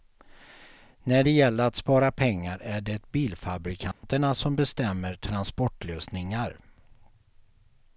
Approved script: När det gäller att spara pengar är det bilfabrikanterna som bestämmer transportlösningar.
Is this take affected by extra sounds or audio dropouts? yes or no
yes